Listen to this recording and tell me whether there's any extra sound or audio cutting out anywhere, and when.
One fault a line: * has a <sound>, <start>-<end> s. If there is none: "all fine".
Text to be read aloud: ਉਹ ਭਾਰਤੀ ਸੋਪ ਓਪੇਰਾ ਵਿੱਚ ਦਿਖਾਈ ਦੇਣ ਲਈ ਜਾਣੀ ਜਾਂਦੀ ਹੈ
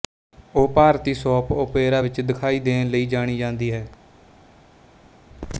all fine